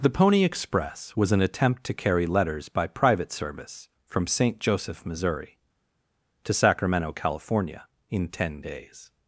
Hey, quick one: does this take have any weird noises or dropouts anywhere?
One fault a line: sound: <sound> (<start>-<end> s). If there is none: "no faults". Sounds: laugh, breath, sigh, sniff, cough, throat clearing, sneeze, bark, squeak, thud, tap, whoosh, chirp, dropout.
no faults